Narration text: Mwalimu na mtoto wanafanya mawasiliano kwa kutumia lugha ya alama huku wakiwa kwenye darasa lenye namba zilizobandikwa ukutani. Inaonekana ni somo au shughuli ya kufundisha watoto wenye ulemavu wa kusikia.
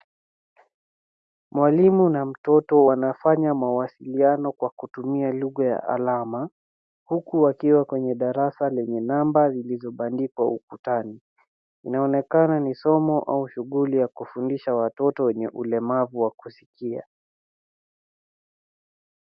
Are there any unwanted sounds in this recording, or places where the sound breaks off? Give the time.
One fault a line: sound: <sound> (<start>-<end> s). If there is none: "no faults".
no faults